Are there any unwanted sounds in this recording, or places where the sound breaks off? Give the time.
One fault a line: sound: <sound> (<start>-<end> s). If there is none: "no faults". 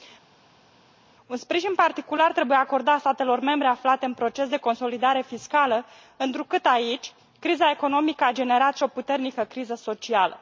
no faults